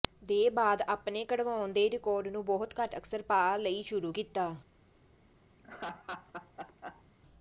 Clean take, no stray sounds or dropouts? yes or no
no